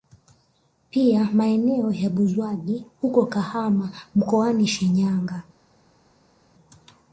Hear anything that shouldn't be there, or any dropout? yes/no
no